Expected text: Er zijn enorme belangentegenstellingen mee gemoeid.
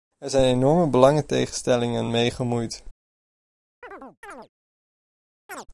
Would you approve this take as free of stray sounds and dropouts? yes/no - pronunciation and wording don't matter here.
no